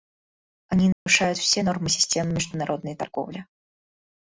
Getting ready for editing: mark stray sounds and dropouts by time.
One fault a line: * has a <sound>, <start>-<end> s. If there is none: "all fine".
* has a dropout, 0.9-1.1 s